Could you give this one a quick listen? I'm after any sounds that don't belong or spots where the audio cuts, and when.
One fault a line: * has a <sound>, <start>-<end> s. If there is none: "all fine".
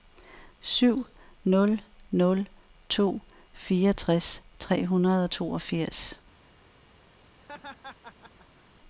* has a laugh, 7.4-8.6 s